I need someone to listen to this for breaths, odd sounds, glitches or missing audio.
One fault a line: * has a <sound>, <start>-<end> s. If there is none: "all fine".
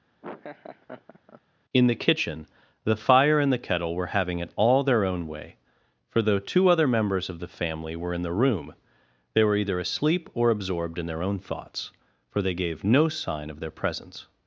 * has a laugh, 0.2-1.4 s